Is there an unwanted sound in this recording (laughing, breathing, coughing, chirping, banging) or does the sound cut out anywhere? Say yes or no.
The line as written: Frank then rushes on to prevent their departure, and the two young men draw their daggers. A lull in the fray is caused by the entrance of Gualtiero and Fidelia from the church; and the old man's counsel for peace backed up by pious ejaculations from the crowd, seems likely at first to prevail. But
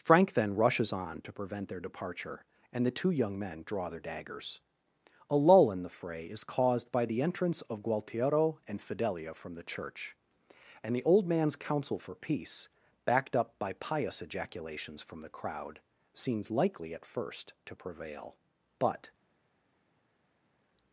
no